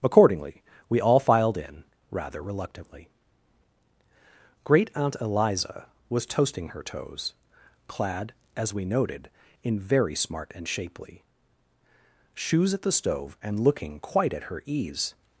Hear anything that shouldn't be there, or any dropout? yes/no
no